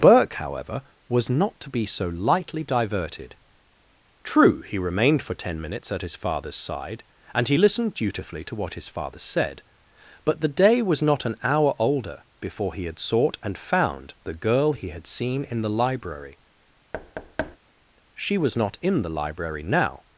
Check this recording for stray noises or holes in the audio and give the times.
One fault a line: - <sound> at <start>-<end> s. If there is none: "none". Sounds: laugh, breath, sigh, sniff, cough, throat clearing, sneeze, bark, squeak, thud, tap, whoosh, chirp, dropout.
- thud at 16.9-17.6 s